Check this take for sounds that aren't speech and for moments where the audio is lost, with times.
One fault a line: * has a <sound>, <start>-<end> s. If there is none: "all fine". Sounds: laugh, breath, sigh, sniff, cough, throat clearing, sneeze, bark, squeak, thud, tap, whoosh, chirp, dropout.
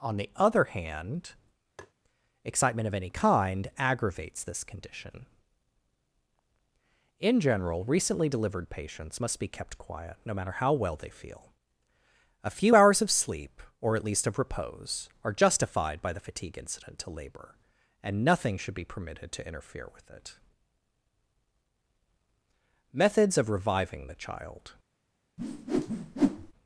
* has a tap, 1.8-1.9 s
* has a whoosh, 25.4-26.5 s